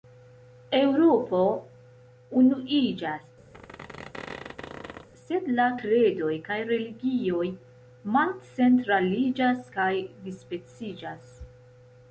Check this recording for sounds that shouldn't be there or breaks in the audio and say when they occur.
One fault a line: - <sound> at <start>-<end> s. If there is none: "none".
- squeak at 3.5-5.1 s